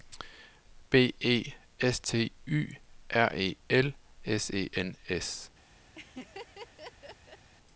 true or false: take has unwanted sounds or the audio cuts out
true